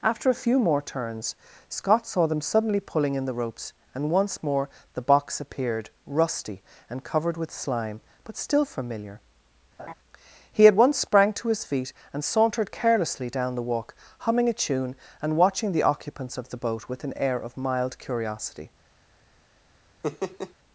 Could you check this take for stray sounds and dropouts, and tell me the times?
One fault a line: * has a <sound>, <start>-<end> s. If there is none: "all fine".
* has a laugh, 9.8-9.9 s
* has a laugh, 20.0-20.5 s